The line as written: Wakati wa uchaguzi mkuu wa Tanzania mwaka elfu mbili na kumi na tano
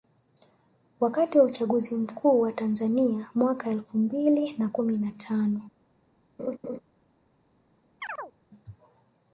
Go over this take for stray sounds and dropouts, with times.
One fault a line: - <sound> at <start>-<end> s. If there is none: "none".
- laugh at 6.4-6.8 s
- chirp at 8.0-8.3 s